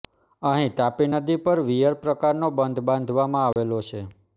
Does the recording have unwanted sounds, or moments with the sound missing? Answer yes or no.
yes